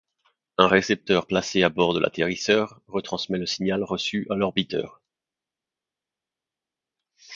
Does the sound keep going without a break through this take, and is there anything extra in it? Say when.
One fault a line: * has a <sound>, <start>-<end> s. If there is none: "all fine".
all fine